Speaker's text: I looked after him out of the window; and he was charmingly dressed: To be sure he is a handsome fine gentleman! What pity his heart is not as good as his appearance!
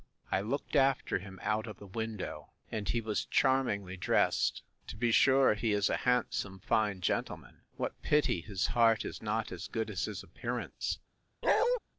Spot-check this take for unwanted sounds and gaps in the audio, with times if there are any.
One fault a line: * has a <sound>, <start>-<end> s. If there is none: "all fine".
* has a bark, 11.4-11.8 s